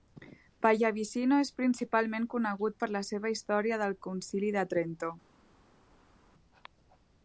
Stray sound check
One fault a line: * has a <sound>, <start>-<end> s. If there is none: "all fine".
all fine